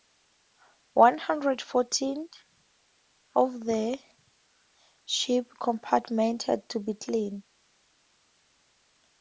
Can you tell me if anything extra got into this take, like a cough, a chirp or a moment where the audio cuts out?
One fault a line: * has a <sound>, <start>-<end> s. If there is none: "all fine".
all fine